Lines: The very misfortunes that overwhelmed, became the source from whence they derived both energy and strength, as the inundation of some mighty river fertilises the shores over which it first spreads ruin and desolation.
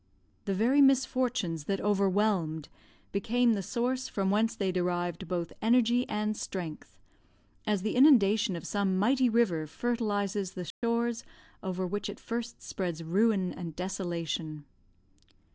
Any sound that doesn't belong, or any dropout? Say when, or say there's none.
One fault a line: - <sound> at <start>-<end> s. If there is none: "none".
- dropout at 10.7-10.8 s